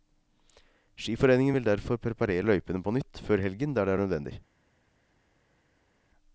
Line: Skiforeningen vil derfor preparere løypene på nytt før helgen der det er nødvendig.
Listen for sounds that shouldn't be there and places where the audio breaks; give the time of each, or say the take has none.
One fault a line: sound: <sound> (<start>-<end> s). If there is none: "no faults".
no faults